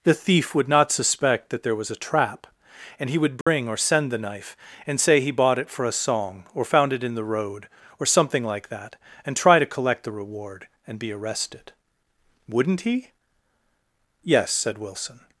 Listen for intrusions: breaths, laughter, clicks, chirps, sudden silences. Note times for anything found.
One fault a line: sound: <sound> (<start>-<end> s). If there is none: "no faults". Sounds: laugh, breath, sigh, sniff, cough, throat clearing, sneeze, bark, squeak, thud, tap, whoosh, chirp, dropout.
sound: dropout (3.4-3.5 s)